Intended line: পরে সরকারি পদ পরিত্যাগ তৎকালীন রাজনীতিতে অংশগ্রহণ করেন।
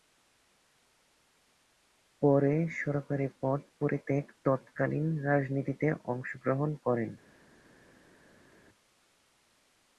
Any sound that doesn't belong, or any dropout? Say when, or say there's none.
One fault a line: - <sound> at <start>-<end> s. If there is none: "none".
none